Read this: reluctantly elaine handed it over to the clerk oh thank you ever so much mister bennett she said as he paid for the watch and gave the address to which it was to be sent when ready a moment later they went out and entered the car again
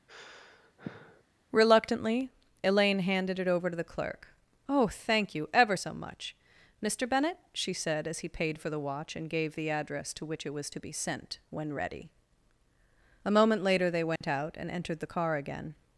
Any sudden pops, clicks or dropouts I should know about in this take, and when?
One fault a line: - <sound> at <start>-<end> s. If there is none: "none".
- sigh at 0.1-1.2 s
- dropout at 14.2-14.2 s